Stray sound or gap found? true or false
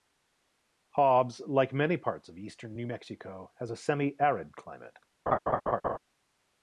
true